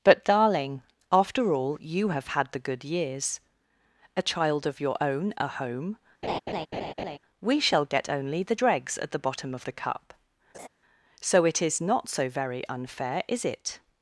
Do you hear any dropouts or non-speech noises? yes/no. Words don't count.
yes